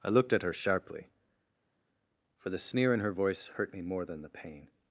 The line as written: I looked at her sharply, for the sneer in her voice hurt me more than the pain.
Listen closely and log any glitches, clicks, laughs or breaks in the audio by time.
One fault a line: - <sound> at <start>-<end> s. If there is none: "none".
none